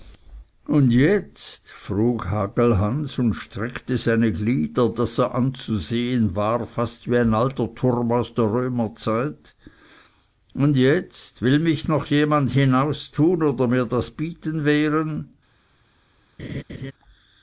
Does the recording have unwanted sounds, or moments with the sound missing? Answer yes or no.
yes